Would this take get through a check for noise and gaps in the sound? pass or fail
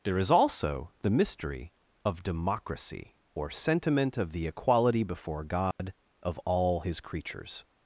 fail